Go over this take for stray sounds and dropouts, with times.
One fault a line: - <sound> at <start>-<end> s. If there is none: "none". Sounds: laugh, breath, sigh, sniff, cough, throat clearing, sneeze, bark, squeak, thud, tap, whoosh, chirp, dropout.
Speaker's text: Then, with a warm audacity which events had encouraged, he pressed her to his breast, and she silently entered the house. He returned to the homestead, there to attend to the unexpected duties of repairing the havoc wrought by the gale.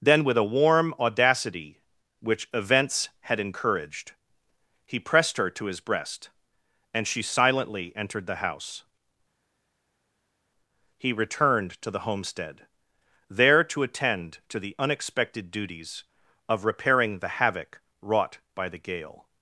none